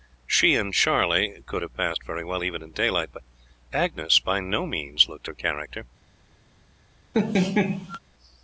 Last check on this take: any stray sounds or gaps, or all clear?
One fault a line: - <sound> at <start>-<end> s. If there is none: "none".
- laugh at 7.1-8.0 s